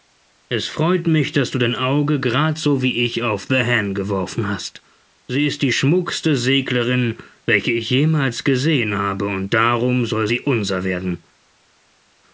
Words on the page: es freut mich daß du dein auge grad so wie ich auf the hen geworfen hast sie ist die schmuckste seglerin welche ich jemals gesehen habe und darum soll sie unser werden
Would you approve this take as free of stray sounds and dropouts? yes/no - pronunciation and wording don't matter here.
yes